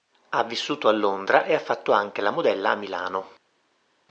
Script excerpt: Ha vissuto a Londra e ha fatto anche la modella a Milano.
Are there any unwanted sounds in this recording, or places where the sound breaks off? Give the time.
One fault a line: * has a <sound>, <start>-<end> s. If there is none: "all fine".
all fine